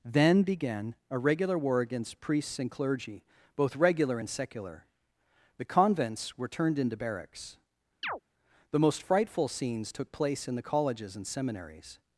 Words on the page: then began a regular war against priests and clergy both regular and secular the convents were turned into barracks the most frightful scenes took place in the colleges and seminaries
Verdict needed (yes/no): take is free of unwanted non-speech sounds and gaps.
no